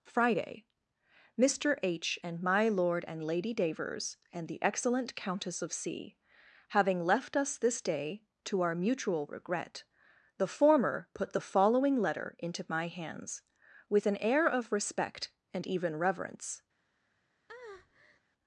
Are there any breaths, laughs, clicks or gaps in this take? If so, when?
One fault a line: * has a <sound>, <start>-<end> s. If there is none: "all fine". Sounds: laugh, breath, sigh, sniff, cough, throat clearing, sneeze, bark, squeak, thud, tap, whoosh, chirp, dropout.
* has a breath, 17.5-18.2 s